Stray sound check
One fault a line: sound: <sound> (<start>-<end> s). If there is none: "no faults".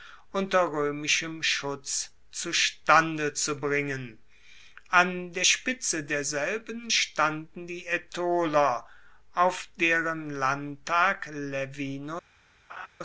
sound: laugh (12.7-12.9 s)